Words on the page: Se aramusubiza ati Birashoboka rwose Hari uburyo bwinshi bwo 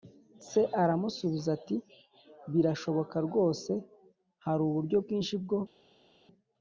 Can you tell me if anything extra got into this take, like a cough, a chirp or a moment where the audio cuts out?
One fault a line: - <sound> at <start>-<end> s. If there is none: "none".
none